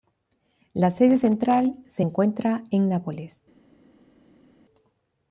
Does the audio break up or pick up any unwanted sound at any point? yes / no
no